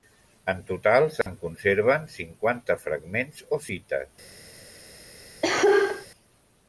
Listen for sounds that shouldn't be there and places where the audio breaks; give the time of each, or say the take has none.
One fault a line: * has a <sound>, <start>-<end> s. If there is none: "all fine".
* has a dropout, 1.2-1.3 s
* has a cough, 5.4-6.1 s